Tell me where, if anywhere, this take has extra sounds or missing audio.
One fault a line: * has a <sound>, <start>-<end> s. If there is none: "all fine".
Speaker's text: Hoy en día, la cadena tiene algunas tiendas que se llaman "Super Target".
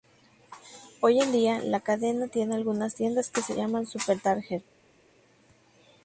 all fine